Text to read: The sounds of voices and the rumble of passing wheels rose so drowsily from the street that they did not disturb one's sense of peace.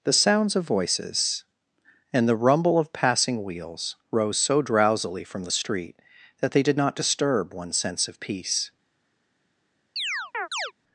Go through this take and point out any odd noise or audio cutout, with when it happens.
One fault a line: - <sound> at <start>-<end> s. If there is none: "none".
- chirp at 10.0-10.7 s